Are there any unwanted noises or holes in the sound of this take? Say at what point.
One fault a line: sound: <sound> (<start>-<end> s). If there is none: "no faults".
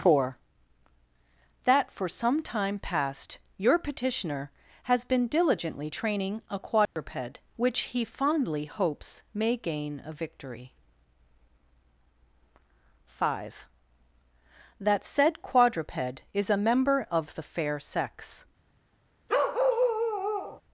sound: dropout (6.9-7.0 s)
sound: bark (19.3-20.6 s)